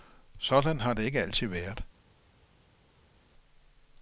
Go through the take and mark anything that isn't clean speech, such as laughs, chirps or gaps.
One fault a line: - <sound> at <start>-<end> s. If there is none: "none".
none